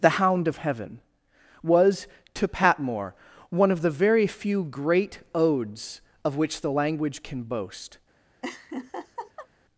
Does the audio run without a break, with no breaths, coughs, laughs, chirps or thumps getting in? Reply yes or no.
no